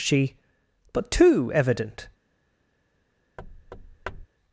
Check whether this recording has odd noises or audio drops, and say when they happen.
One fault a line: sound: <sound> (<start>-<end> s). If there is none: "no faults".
sound: thud (3.4-4.3 s)